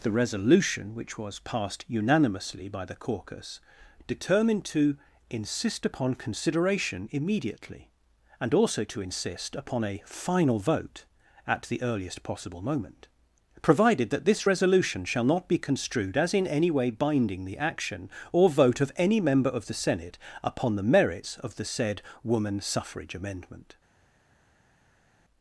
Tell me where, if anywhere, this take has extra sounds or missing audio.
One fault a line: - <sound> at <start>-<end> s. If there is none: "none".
none